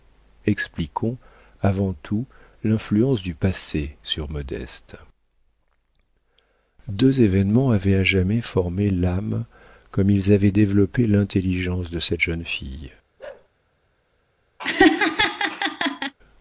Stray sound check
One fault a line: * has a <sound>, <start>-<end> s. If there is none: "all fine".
* has a bark, 13.2-13.5 s
* has a laugh, 14.6-16.1 s